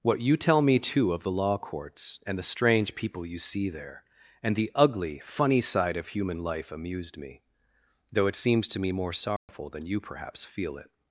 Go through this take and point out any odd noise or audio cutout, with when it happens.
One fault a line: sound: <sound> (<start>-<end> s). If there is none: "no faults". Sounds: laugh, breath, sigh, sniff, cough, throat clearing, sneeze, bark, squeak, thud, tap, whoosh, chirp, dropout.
sound: dropout (9.4-9.5 s)